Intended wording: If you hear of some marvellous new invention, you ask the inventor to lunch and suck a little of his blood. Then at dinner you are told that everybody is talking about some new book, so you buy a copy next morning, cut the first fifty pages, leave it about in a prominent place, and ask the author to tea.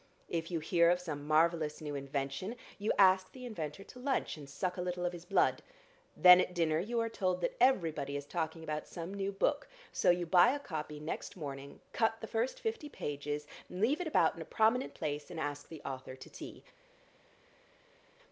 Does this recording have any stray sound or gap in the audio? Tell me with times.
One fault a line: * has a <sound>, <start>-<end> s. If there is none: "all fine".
all fine